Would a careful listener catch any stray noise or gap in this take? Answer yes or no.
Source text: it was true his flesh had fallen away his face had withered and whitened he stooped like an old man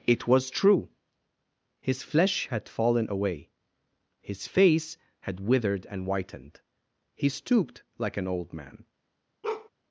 yes